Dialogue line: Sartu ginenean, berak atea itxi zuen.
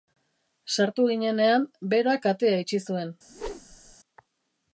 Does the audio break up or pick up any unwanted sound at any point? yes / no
yes